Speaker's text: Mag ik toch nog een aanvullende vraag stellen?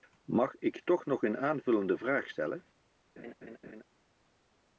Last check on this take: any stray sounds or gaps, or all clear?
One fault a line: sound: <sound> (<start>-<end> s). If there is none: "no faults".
sound: laugh (3.2-3.8 s)